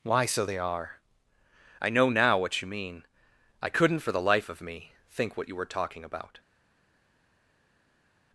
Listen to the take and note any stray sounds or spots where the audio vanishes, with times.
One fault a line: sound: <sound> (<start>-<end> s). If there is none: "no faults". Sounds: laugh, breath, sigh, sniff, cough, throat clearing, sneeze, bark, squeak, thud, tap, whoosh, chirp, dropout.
no faults